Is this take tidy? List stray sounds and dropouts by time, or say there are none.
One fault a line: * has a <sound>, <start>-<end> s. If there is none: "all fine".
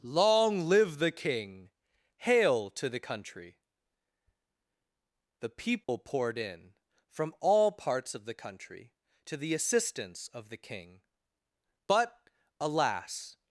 * has a dropout, 5.8-5.9 s